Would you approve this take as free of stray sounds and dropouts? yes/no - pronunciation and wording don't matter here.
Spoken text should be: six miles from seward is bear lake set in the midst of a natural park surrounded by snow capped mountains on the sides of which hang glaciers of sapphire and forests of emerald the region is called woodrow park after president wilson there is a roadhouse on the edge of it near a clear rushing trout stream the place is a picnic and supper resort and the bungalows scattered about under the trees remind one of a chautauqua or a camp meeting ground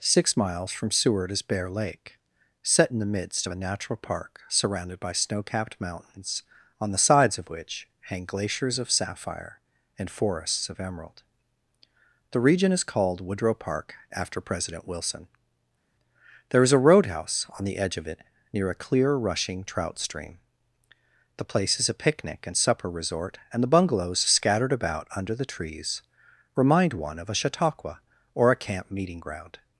yes